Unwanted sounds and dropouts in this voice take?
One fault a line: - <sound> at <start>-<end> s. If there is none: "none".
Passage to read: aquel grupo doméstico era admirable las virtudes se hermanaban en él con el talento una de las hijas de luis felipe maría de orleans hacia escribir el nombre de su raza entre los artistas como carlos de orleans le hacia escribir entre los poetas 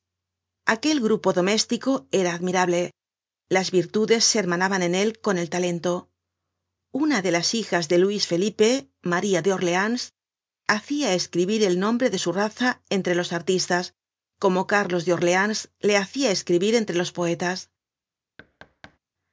- thud at 18.4-19.0 s